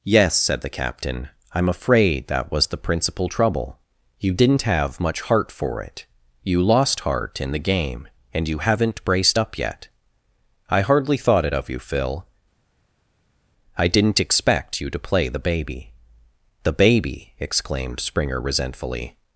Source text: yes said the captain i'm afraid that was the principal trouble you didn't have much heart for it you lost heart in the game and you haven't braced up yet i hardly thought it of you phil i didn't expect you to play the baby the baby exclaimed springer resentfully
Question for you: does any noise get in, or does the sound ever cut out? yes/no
no